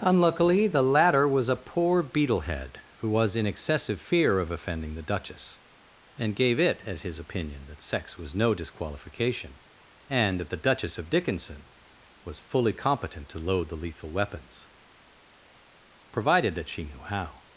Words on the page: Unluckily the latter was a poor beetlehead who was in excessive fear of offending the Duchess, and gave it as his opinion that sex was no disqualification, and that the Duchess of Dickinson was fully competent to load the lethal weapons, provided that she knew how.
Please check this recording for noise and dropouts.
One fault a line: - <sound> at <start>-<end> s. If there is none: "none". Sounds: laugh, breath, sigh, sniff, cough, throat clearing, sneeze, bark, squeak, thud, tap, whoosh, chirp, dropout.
none